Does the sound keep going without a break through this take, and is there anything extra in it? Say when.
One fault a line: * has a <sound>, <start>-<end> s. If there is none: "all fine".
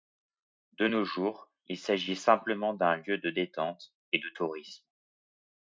all fine